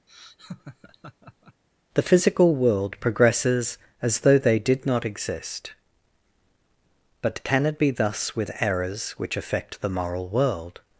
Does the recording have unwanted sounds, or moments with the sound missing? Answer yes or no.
yes